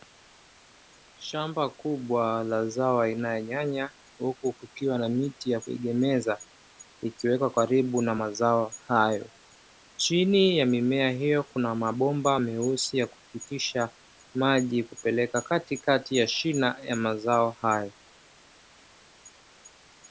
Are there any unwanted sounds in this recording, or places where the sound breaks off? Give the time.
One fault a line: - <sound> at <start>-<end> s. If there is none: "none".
none